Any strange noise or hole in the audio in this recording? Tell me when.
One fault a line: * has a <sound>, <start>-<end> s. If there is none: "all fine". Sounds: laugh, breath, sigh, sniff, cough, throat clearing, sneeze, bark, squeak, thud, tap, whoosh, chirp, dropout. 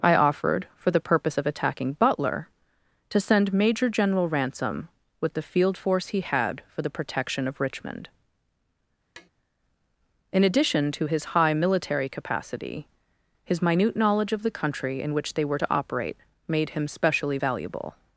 * has a tap, 9.2-9.3 s